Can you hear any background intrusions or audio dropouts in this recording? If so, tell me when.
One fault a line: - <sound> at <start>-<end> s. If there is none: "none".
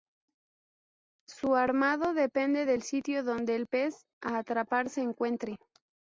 none